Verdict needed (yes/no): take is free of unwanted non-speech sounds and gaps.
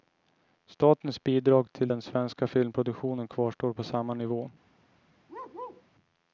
no